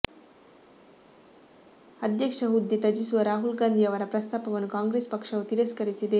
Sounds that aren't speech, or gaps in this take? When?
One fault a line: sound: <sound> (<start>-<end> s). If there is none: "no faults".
no faults